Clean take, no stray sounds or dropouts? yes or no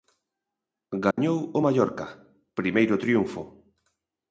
no